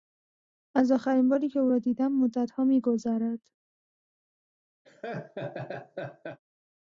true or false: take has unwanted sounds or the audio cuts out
true